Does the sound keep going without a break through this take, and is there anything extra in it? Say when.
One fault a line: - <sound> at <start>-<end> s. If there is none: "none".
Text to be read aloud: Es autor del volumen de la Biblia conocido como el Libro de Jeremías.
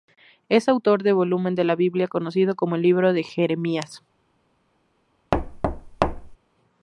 - thud at 5.3-6.4 s